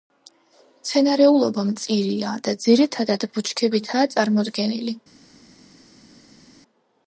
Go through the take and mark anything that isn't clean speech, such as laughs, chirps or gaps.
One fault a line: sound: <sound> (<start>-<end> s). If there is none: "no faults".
no faults